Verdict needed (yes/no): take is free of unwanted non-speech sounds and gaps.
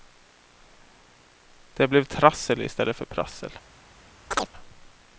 no